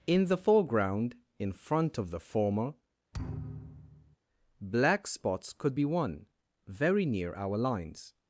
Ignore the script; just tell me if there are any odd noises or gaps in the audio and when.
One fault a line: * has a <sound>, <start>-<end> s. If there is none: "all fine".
* has a thud, 3.1-4.2 s